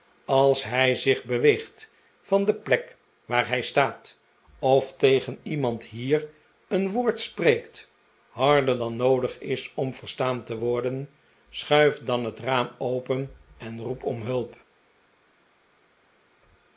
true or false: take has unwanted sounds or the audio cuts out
false